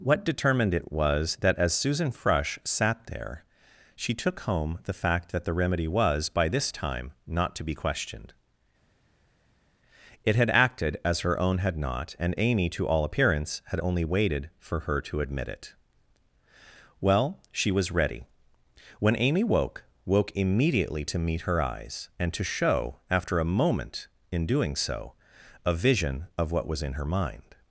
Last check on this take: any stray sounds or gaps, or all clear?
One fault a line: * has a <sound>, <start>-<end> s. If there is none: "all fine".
all fine